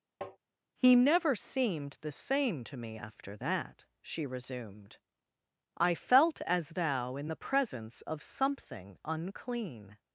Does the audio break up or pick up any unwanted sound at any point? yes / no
yes